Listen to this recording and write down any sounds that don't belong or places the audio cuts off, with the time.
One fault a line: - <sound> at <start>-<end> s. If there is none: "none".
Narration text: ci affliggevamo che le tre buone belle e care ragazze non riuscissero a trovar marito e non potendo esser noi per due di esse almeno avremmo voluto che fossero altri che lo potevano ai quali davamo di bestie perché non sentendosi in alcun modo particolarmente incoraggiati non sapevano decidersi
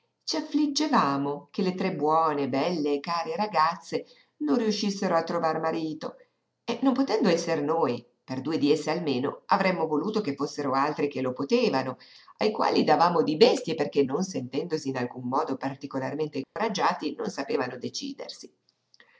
- dropout at 16.4-16.6 s